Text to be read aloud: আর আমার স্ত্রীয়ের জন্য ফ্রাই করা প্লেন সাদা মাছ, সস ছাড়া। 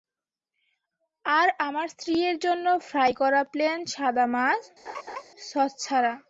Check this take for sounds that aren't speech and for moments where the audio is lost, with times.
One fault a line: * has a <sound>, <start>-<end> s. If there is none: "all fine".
* has a laugh, 4.9-5.2 s